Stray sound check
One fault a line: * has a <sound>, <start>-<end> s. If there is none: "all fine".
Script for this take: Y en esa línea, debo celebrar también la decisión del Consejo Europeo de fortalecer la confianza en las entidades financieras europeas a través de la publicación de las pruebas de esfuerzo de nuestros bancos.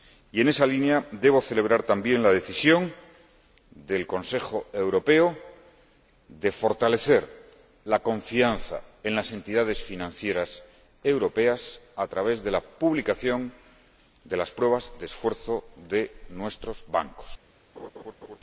* has a laugh, 17.8-18.4 s